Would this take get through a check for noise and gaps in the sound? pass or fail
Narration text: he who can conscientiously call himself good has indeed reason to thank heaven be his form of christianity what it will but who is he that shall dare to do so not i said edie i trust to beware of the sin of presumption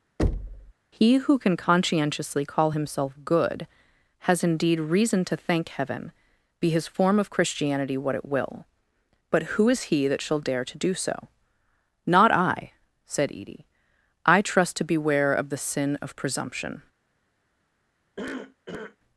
fail